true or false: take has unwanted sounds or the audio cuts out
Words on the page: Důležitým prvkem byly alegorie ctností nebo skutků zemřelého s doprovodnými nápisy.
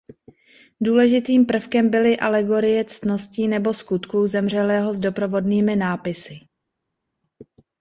false